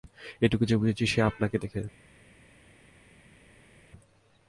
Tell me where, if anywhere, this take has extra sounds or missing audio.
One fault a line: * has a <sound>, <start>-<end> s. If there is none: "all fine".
all fine